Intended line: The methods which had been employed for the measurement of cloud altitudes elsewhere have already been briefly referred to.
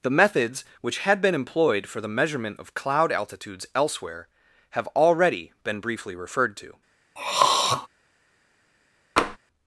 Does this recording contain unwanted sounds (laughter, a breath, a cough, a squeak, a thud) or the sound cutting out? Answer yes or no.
yes